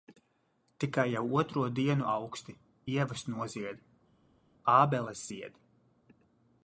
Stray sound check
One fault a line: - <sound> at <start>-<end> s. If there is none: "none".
none